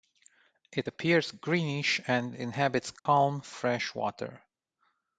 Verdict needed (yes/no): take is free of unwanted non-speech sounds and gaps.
no